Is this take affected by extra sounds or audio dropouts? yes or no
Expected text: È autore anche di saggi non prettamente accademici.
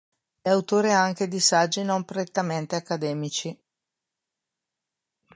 no